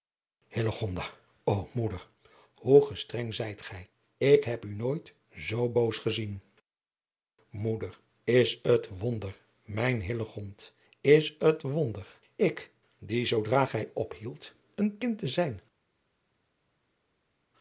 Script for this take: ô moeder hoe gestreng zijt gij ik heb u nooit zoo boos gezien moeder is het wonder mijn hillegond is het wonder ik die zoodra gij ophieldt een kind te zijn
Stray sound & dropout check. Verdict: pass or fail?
pass